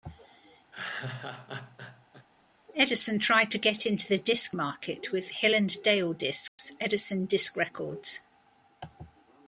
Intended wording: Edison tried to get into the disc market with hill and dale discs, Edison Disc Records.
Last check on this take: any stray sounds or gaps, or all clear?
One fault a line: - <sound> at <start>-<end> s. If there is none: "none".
- laugh at 0.7-2.3 s
- dropout at 6.5-6.6 s